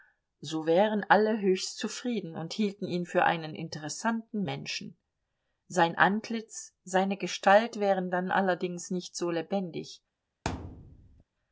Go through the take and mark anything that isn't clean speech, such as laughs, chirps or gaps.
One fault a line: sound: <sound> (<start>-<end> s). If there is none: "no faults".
sound: thud (10.4-11.2 s)